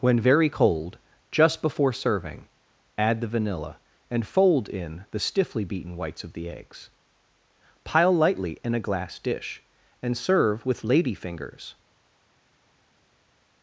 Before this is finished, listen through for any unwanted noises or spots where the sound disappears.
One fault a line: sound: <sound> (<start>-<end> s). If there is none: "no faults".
no faults